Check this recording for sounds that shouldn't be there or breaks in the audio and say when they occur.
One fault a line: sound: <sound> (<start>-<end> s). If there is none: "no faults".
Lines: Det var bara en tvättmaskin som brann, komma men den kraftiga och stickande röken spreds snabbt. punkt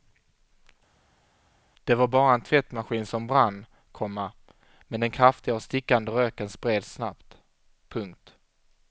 no faults